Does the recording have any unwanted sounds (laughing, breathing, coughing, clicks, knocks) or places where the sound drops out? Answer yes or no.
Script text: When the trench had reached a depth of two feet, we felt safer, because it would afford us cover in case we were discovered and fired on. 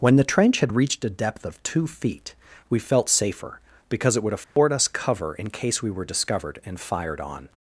yes